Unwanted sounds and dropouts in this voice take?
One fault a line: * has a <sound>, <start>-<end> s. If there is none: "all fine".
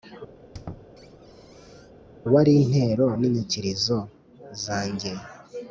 * has a squeak, 0.4-1.9 s